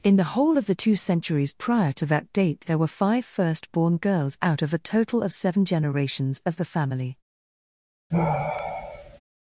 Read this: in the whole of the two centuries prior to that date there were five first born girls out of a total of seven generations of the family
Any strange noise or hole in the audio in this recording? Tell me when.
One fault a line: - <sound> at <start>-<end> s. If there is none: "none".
- sigh at 8.1-9.2 s